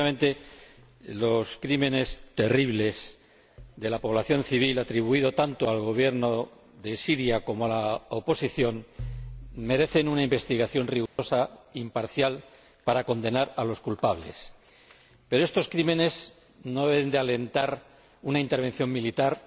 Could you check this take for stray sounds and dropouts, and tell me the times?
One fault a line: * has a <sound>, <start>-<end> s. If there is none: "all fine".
* has a dropout, 11.1-11.2 s